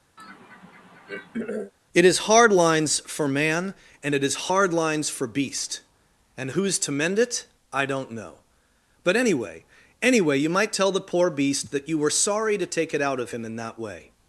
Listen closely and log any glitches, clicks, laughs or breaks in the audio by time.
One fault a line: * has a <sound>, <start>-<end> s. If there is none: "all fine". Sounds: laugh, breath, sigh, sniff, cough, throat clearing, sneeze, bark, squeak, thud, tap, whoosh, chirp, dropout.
* has a throat clearing, 0.2-1.7 s